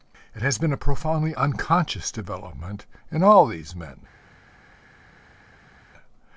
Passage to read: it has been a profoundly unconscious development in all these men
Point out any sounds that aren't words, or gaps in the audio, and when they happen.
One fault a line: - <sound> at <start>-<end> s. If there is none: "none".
none